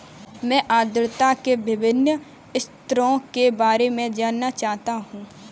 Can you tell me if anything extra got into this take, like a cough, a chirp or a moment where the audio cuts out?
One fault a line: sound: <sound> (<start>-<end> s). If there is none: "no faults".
no faults